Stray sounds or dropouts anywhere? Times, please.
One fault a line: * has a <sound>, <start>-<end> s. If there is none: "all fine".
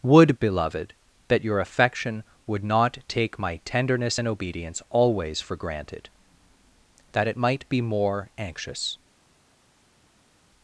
all fine